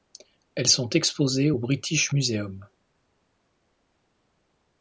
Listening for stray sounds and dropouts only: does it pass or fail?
pass